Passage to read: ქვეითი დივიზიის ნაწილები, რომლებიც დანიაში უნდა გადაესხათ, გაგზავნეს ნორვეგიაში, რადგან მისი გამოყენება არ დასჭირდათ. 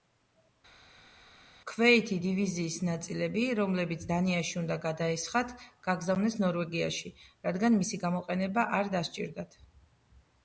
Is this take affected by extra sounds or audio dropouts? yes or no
no